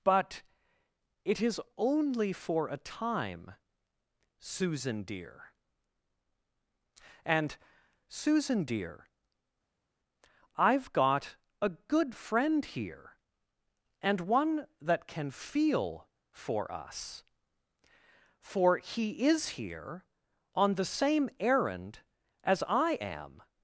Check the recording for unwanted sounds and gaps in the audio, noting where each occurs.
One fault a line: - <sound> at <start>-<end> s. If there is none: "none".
none